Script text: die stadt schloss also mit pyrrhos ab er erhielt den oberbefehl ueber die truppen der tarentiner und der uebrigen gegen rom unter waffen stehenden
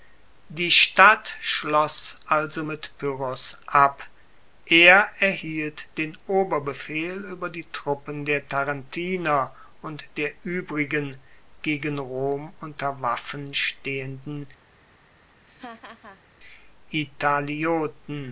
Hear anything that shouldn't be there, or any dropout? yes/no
yes